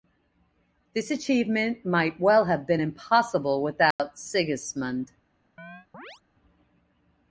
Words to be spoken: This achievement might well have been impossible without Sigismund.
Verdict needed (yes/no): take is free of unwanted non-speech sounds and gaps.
no